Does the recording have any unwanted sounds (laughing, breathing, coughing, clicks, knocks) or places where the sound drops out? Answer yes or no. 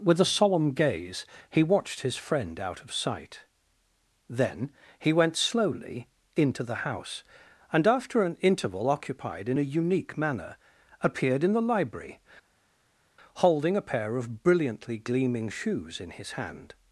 no